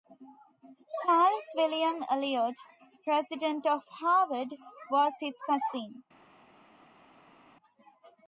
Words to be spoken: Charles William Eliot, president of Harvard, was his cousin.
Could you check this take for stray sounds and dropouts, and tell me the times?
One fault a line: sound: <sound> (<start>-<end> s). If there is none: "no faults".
no faults